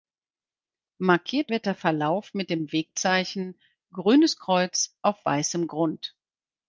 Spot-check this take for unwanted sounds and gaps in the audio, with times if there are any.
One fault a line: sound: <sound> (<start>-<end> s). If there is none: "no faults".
no faults